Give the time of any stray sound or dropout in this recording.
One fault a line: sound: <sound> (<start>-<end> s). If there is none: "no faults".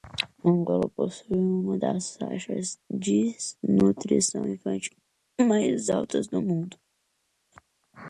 no faults